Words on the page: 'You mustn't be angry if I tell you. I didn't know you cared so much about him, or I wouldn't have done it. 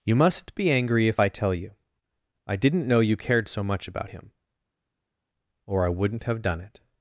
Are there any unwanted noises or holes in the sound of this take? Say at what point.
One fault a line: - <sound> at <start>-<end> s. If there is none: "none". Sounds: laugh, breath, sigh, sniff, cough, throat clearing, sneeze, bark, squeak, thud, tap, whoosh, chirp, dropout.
none